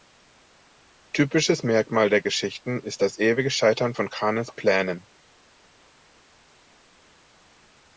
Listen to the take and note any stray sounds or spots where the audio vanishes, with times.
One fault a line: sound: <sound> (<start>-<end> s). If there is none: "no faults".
no faults